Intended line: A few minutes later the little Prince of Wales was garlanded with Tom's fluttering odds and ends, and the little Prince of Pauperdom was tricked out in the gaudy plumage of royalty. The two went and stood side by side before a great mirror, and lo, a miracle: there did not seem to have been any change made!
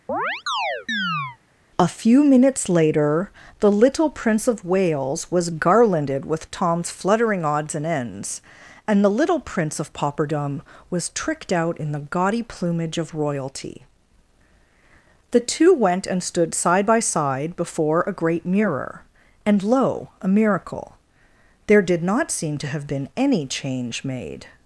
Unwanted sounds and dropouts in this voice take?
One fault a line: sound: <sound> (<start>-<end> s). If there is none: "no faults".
sound: chirp (0.1-1.4 s)